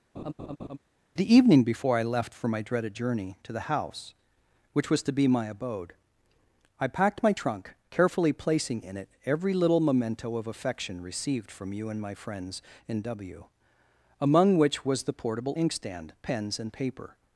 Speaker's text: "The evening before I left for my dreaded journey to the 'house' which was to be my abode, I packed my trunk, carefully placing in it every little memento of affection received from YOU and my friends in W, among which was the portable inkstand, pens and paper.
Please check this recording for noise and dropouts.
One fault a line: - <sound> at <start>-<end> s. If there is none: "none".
- laugh at 0.1-0.8 s